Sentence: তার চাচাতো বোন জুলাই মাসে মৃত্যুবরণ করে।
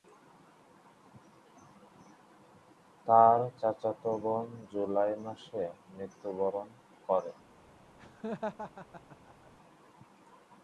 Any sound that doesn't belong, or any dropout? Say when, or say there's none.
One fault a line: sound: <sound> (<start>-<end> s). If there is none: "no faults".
sound: laugh (8.0-9.5 s)